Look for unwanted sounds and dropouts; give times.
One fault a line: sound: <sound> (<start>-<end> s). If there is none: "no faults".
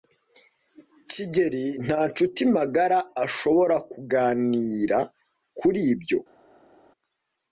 no faults